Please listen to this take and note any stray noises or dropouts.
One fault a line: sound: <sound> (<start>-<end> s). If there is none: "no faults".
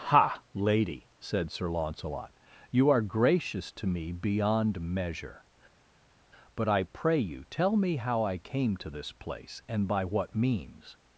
no faults